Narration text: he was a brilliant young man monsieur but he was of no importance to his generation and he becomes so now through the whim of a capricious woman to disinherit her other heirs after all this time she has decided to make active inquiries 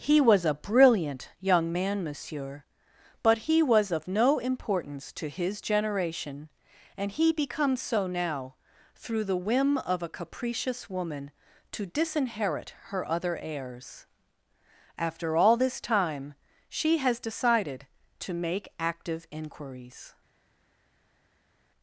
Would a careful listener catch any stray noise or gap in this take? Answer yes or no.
no